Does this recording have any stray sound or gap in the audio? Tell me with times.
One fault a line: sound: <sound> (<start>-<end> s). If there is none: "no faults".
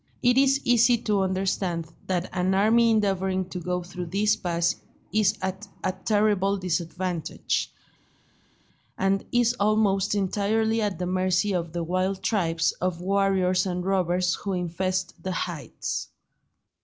no faults